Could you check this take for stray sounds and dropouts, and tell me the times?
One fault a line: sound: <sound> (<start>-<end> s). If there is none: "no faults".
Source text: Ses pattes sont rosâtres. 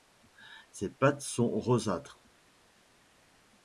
no faults